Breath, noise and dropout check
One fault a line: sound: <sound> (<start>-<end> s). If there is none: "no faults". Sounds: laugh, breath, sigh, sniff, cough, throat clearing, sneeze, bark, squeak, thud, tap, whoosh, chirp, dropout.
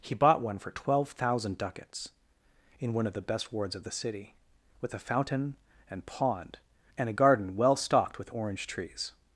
no faults